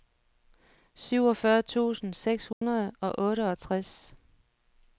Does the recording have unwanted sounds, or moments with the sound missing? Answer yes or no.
yes